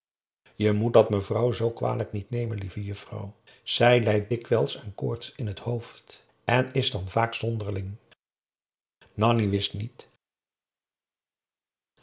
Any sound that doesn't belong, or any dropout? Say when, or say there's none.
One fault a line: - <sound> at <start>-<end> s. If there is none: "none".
none